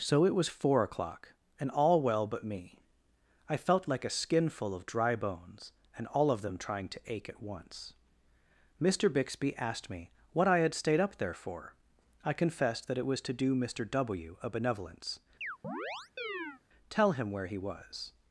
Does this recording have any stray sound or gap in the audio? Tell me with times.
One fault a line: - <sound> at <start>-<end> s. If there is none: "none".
- chirp at 15.4-16.6 s